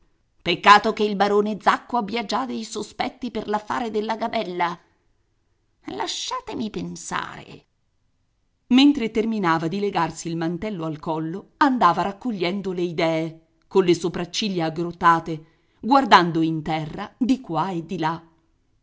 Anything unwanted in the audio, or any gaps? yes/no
no